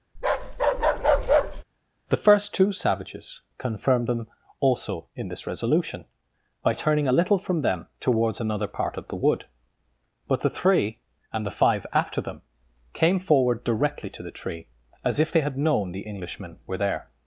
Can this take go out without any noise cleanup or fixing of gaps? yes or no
no